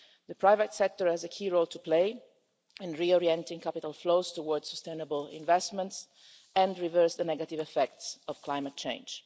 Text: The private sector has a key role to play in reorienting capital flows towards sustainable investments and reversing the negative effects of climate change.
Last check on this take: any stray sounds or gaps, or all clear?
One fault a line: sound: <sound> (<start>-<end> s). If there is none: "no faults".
no faults